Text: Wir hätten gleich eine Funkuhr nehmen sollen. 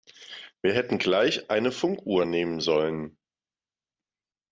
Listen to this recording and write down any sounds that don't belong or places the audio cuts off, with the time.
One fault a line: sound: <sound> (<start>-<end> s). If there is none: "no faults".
no faults